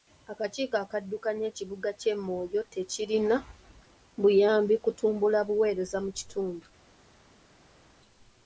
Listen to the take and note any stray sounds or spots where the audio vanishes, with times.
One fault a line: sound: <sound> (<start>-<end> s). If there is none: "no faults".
no faults